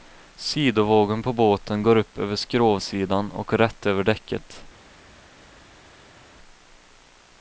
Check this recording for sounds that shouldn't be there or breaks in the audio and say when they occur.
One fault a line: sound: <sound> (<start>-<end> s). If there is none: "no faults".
no faults